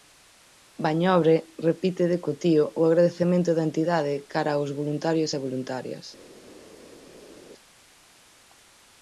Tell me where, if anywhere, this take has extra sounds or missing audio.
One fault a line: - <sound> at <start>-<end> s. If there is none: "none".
none